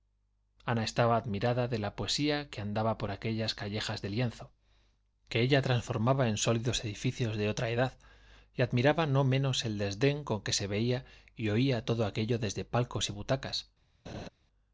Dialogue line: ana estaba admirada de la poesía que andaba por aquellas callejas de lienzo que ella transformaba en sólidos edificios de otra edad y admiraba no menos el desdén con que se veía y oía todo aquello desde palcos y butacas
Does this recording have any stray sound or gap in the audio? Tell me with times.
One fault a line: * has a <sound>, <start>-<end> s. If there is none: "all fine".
* has a laugh, 14.1-14.3 s